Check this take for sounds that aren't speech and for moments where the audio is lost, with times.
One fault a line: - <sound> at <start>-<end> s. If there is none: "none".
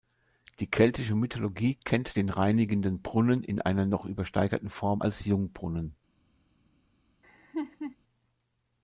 - laugh at 7.2-8.0 s